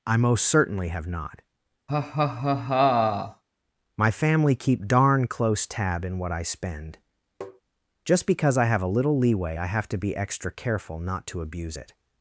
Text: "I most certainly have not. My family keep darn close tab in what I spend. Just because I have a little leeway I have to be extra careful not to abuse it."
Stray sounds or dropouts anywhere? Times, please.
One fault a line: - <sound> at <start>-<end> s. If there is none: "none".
- laugh at 1.9-3.4 s
- tap at 7.4-7.6 s